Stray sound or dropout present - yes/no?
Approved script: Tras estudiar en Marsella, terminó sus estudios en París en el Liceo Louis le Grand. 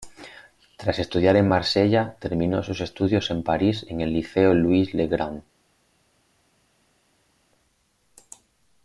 no